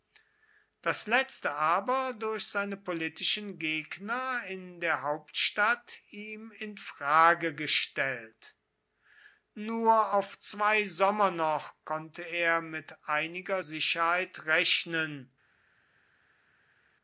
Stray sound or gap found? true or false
false